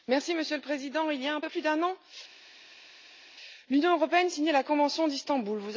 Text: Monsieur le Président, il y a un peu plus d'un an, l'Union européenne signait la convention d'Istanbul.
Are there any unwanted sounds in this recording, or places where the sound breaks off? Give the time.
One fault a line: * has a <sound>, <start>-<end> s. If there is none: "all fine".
all fine